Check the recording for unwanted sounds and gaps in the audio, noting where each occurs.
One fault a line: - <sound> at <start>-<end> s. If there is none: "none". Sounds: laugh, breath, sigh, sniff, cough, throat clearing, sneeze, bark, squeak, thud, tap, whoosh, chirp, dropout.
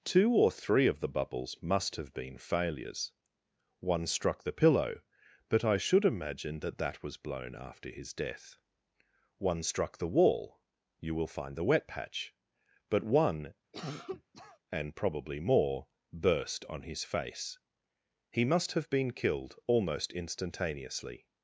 - cough at 13.7-14.6 s